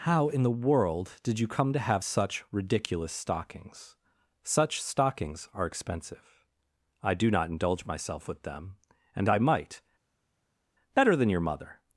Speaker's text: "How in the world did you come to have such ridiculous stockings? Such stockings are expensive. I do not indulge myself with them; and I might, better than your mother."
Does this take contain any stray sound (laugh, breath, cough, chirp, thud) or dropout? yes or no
no